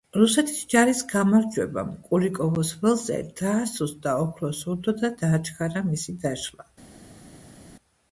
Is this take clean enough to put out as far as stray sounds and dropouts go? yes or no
yes